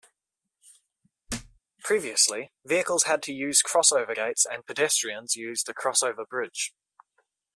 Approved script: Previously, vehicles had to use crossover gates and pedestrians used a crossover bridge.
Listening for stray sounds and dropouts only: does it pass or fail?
fail